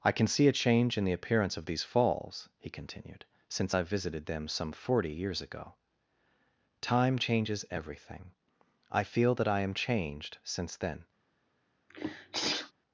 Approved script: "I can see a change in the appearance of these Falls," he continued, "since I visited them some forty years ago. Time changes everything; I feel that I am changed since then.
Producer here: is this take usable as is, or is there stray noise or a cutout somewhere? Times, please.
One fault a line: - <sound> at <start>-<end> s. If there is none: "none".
- sneeze at 11.9-12.7 s